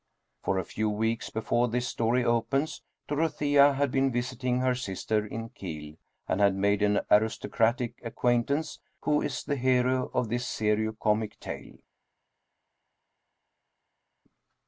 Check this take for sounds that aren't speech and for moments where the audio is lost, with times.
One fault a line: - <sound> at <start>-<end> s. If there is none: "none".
none